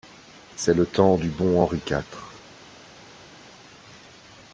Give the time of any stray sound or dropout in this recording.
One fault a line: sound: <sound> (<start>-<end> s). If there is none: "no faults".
no faults